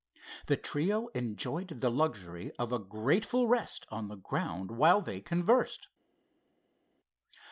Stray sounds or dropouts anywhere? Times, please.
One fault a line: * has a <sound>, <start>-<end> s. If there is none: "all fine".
all fine